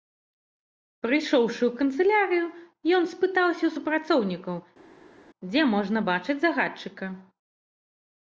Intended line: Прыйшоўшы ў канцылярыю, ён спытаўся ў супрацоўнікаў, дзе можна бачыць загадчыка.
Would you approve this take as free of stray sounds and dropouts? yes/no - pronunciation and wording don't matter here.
yes